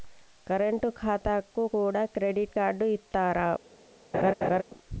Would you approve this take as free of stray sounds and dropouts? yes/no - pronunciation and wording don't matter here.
no